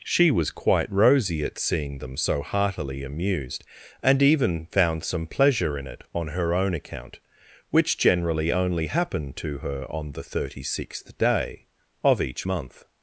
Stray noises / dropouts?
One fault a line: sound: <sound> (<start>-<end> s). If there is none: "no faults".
no faults